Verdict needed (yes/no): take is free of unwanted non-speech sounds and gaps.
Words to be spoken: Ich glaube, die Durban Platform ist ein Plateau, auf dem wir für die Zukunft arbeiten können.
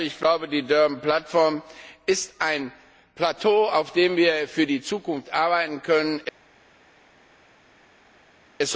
yes